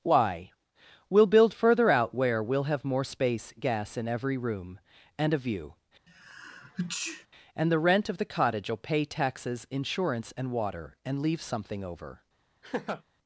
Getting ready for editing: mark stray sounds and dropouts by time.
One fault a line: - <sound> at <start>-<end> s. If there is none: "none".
- sneeze at 6.1-7.3 s
- laugh at 12.6-13.0 s